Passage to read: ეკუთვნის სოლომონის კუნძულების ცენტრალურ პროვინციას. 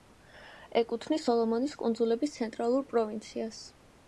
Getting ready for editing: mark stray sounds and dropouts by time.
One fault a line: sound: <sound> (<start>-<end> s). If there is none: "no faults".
no faults